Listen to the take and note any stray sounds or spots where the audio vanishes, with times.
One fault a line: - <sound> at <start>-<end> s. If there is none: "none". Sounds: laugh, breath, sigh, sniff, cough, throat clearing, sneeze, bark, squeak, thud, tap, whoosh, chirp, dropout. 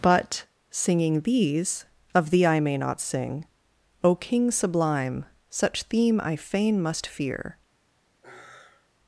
- sigh at 8.2-8.9 s